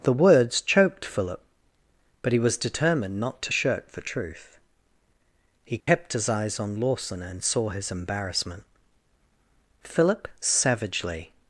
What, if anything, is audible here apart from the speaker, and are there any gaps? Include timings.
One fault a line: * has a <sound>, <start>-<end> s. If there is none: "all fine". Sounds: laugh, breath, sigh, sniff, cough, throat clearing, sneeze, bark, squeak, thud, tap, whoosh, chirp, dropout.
* has a dropout, 5.8-5.9 s